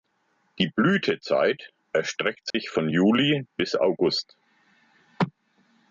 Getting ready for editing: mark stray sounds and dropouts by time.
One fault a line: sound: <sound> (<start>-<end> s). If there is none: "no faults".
sound: dropout (2.5-2.5 s)